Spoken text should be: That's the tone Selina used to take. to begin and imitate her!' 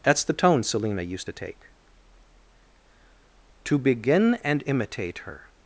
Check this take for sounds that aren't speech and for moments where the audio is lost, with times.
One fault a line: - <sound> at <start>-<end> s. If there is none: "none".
none